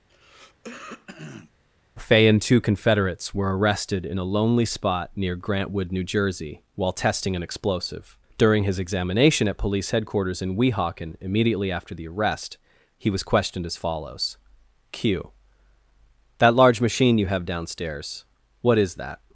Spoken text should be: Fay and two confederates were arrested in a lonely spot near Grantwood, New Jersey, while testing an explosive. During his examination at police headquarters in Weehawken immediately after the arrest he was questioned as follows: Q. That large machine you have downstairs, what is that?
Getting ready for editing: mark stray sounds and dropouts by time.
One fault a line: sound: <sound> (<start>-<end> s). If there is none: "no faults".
sound: throat clearing (0.1-1.5 s)